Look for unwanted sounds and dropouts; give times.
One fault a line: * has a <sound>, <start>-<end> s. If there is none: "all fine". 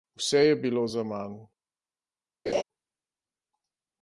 * has a laugh, 2.5-2.6 s